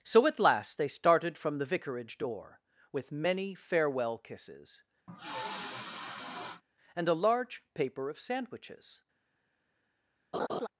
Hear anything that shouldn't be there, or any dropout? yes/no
yes